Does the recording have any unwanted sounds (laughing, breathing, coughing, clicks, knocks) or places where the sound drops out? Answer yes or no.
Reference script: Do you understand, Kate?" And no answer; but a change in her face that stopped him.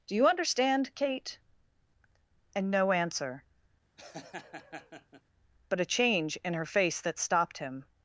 yes